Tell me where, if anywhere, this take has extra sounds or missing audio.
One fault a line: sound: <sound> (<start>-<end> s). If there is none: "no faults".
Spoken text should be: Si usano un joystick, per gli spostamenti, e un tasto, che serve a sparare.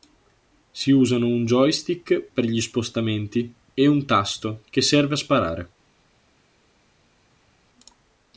no faults